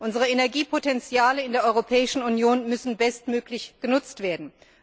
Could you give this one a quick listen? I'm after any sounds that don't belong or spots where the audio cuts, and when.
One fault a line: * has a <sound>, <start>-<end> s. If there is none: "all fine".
all fine